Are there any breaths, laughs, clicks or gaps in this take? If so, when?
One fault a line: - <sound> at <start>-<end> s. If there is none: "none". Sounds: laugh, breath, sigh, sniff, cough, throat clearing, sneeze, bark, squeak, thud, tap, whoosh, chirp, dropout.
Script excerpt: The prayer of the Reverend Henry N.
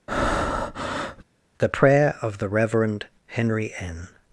- breath at 0.1-1.2 s